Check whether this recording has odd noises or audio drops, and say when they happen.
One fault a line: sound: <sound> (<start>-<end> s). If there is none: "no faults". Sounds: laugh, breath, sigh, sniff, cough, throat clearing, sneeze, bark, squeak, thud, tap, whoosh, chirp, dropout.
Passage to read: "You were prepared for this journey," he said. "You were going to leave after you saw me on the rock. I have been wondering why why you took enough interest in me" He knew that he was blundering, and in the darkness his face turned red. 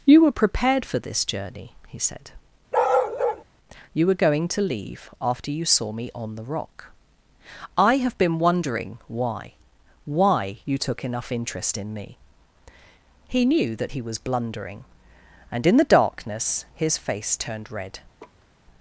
sound: bark (2.7-3.4 s)
sound: laugh (18.2-18.5 s)